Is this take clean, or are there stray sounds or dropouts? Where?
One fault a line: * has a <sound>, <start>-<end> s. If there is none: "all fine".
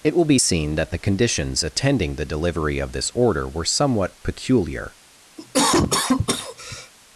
* has a cough, 5.4-6.9 s